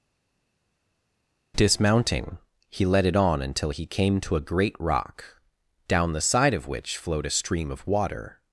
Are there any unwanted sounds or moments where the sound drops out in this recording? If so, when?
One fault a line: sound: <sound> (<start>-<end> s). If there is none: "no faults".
no faults